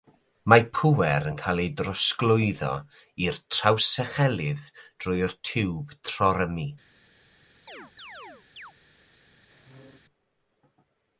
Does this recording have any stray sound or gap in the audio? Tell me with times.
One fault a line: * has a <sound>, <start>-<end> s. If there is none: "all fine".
* has a chirp, 7.7-8.7 s
* has a squeak, 9.5-10.0 s